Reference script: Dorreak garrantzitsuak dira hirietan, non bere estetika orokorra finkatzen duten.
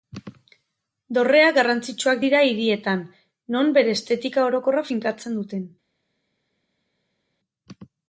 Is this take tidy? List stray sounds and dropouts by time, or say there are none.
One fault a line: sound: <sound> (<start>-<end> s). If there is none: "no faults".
no faults